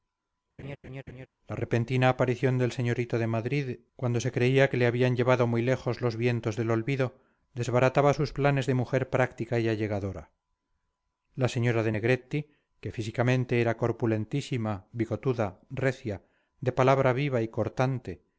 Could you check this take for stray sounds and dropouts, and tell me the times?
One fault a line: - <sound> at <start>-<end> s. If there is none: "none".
- laugh at 0.6-1.3 s